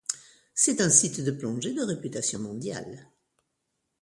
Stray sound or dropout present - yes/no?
no